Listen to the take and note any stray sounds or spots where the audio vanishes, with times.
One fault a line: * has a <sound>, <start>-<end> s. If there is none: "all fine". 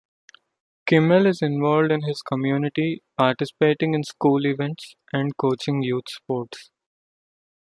all fine